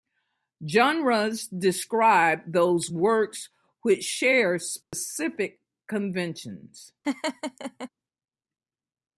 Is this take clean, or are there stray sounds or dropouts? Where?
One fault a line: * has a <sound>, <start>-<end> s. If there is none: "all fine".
* has a dropout, 4.8-4.9 s
* has a laugh, 7.0-7.9 s